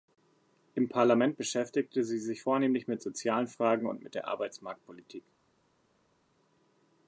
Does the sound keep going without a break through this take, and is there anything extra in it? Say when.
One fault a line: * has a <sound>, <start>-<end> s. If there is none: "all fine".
all fine